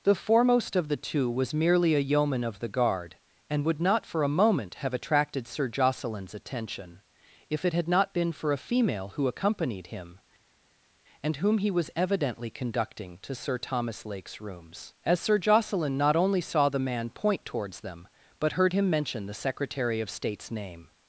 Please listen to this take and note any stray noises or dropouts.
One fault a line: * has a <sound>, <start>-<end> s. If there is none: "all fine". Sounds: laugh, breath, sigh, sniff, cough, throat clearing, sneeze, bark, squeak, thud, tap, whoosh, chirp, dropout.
all fine